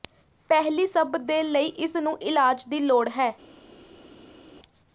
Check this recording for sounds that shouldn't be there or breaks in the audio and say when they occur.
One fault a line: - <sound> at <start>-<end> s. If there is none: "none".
none